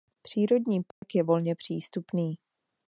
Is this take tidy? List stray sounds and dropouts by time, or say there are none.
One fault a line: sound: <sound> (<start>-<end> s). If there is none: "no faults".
sound: dropout (0.9-1.0 s)